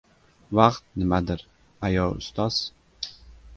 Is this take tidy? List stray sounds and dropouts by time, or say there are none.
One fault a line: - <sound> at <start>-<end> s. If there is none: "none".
none